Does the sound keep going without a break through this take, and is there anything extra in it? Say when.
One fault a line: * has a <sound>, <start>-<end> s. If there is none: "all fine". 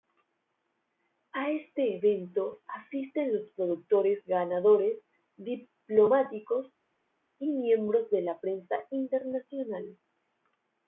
all fine